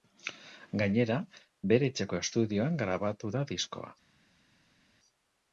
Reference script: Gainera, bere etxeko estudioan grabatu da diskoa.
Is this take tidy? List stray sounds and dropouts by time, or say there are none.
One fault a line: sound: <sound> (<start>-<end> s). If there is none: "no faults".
no faults